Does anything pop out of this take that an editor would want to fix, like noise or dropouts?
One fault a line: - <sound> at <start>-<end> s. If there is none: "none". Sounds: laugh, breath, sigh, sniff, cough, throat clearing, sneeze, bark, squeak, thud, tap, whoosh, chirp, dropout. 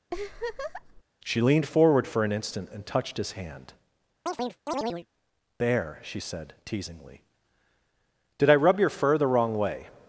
- laugh at 0.1-1.0 s
- chirp at 4.3-5.1 s